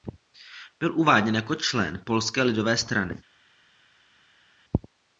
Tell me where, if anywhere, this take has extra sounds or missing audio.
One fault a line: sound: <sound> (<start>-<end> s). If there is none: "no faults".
no faults